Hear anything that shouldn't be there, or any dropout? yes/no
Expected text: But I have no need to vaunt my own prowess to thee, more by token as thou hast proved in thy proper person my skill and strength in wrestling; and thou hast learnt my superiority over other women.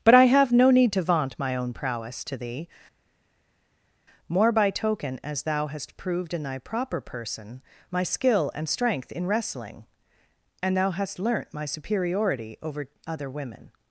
no